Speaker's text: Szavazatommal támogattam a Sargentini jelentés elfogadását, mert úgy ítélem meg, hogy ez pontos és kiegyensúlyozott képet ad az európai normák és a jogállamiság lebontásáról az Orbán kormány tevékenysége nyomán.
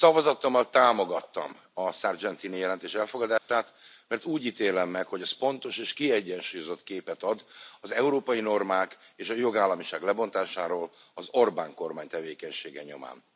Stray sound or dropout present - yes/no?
yes